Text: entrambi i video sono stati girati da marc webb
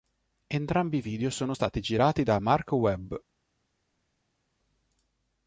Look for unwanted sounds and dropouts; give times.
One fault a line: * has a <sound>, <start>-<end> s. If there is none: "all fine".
all fine